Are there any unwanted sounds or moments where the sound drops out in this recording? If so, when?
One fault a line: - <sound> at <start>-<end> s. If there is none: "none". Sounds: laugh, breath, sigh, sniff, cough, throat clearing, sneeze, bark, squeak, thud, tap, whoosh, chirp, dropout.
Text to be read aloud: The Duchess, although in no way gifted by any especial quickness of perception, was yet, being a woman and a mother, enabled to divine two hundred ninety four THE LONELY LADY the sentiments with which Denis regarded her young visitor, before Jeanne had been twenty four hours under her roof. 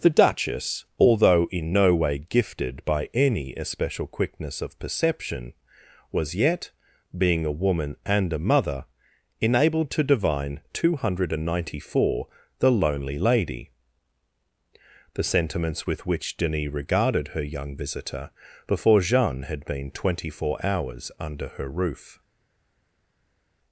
none